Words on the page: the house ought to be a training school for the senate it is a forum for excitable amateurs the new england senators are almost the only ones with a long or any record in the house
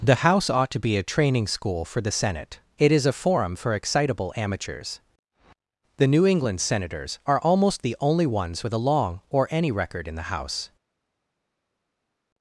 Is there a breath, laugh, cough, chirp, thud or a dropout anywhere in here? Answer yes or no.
no